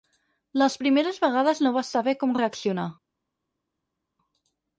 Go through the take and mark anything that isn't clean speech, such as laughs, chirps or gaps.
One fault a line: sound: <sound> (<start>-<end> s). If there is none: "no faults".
no faults